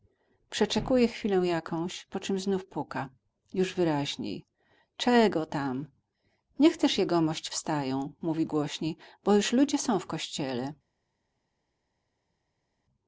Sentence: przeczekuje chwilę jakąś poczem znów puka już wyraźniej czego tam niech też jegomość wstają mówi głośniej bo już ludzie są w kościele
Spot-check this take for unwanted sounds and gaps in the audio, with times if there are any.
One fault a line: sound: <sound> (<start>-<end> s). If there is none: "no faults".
no faults